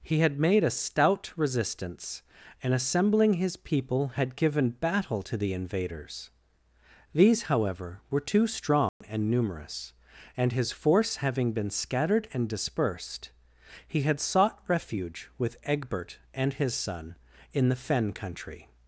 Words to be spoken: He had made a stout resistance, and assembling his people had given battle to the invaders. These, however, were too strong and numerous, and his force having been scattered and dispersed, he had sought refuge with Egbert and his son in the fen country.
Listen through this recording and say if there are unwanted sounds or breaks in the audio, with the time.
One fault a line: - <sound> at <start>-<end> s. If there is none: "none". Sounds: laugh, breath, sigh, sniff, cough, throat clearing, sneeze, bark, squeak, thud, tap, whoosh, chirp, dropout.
- dropout at 8.9-9.0 s